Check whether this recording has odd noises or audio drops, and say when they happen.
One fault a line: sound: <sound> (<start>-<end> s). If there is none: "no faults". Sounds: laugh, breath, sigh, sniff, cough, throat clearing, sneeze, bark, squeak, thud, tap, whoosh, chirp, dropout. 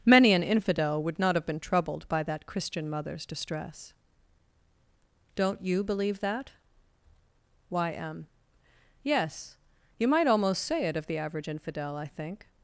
no faults